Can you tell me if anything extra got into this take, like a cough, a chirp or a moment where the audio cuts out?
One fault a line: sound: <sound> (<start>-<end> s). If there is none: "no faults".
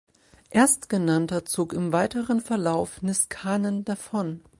no faults